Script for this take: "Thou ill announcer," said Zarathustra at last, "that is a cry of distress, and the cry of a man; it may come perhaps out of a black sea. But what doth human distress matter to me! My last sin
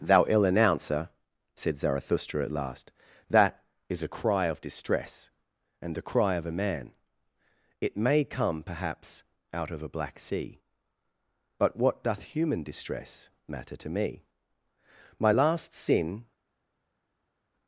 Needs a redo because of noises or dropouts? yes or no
no